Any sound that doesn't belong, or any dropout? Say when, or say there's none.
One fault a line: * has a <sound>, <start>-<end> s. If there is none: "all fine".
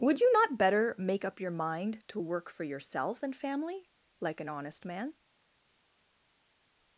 all fine